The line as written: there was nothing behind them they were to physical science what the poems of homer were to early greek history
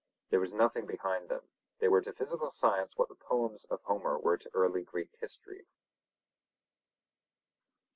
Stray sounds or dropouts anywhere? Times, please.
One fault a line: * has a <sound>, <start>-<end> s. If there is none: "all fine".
all fine